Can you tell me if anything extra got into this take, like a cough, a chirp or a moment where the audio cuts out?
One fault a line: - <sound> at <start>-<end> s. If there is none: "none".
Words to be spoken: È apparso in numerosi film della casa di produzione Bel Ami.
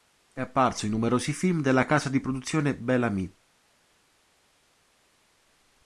none